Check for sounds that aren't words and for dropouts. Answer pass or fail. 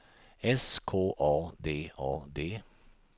pass